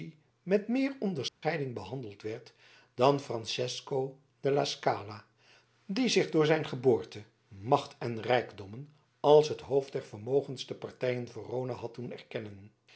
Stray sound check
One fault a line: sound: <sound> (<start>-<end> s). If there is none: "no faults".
sound: dropout (1.3-1.4 s)